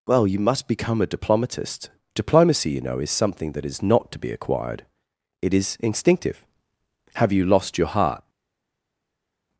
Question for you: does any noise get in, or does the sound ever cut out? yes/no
no